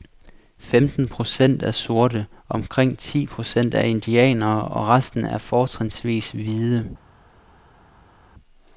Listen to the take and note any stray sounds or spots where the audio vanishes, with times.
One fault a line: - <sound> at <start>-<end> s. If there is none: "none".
none